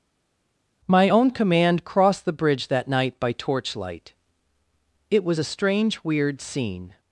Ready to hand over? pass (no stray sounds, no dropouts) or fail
pass